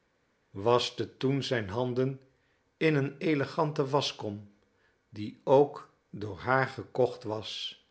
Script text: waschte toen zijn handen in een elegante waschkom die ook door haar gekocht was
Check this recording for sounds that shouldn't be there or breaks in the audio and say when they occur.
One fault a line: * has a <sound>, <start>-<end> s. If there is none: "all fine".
all fine